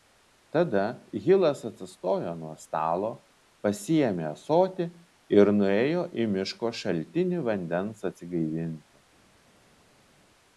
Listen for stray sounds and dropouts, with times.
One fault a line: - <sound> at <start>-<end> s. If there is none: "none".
none